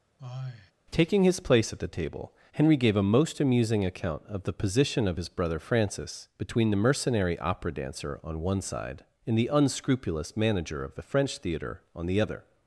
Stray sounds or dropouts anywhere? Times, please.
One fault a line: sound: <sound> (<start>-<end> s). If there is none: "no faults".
sound: sigh (0.2-0.7 s)